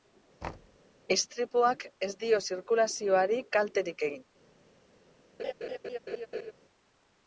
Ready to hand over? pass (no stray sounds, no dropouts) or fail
fail